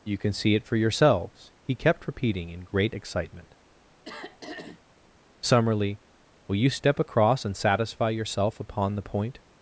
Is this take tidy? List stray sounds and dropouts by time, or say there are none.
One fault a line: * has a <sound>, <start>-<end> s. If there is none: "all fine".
* has a throat clearing, 4.0-4.8 s